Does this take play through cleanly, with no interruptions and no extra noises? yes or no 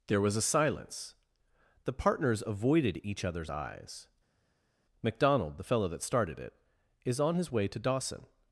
yes